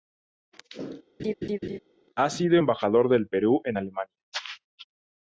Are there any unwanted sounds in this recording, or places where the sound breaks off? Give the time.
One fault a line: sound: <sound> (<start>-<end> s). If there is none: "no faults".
sound: laugh (1.2-1.8 s)